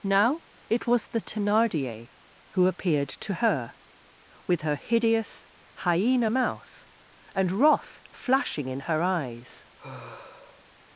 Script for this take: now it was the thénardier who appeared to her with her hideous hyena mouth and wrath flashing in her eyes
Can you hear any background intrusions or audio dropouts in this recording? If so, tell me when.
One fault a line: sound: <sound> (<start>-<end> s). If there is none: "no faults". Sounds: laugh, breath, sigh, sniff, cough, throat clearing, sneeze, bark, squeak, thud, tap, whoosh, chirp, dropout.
sound: sigh (9.8-10.6 s)